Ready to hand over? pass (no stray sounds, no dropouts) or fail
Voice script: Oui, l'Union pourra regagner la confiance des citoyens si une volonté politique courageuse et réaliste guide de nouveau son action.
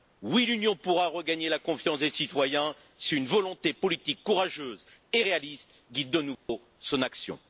fail